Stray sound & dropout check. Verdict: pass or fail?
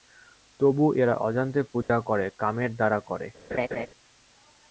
fail